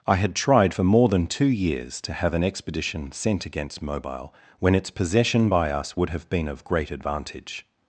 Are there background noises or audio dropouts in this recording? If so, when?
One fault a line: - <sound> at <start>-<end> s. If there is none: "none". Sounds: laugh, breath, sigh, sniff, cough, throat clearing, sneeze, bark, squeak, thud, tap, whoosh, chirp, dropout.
none